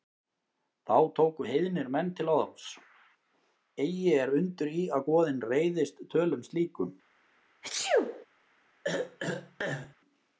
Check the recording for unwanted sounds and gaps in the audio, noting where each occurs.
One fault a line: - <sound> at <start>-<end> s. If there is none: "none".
- sneeze at 7.6-8.3 s
- throat clearing at 8.8-9.9 s